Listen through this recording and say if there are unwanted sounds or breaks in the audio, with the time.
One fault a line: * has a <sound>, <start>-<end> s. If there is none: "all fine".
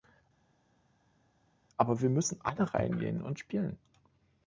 all fine